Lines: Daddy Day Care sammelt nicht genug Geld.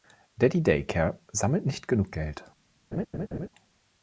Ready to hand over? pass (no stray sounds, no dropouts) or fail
fail